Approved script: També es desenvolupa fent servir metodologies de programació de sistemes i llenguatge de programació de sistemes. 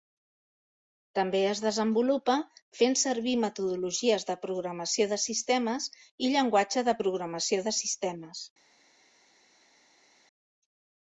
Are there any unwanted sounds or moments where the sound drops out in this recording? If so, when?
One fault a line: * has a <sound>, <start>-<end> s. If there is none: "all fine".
all fine